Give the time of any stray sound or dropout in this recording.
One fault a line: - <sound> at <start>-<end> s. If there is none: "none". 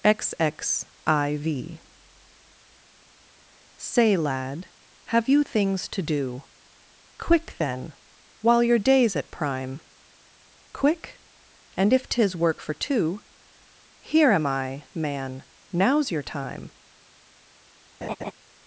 - laugh at 18.0-18.3 s